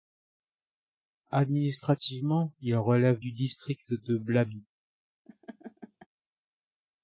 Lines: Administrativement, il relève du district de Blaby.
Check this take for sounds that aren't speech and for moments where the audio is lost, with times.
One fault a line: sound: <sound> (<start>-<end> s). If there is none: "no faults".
sound: laugh (5.3-6.1 s)